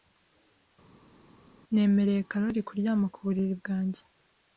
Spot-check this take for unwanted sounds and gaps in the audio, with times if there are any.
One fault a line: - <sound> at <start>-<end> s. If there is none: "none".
none